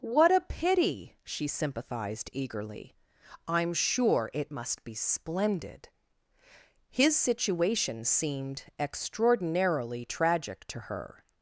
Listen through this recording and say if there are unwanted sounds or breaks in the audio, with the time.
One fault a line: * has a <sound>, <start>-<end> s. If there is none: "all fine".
all fine